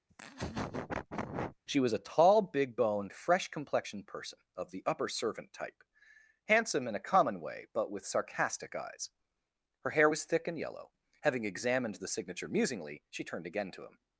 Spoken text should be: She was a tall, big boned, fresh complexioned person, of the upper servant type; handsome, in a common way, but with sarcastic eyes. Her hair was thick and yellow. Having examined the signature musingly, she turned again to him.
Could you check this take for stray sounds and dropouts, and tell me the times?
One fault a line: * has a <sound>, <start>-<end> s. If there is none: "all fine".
* has a laugh, 0.1-1.6 s